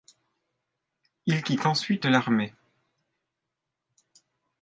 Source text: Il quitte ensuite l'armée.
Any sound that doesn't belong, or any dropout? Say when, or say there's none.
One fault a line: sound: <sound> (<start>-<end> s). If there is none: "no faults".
no faults